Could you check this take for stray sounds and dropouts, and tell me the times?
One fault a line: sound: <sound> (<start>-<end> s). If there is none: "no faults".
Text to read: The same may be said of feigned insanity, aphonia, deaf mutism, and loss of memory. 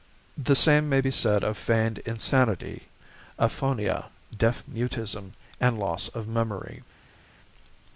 no faults